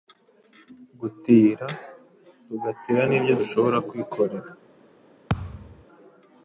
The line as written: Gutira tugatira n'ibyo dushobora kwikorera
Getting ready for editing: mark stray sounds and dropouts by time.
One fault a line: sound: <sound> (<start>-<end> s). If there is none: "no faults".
sound: thud (5.3-5.8 s)